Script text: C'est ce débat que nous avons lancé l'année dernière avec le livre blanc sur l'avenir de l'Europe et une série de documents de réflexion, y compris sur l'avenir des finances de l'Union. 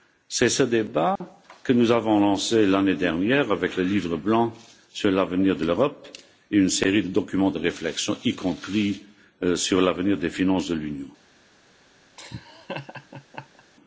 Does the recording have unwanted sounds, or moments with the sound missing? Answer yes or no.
yes